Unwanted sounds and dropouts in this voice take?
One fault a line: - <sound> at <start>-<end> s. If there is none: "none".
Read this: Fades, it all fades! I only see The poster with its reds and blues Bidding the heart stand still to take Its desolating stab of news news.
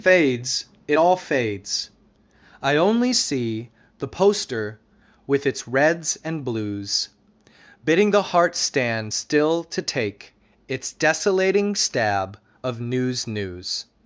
none